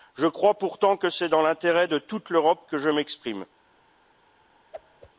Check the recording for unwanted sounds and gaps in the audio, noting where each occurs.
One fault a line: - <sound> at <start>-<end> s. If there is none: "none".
- whoosh at 4.7-5.1 s